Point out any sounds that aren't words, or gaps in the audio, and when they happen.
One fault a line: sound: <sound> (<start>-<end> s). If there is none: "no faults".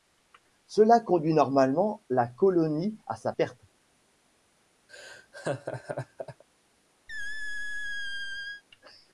sound: laugh (4.9-6.4 s)
sound: squeak (7.1-8.6 s)